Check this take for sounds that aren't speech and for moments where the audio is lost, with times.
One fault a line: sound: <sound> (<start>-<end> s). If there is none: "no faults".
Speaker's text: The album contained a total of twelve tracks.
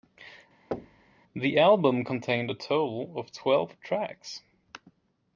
sound: thud (0.7-1.1 s)